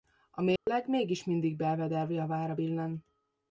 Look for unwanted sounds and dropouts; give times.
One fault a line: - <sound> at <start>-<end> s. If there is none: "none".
- dropout at 0.6-0.7 s